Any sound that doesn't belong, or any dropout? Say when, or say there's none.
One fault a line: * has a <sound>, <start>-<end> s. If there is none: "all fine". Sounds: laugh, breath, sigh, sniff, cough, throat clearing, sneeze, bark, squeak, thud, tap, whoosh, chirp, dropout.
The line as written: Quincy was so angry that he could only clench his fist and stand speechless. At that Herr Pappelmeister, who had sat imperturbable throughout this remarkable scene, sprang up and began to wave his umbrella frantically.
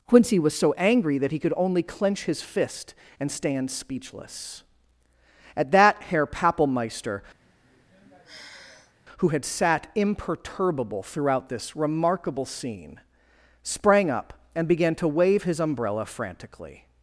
* has a sigh, 7.4-9.0 s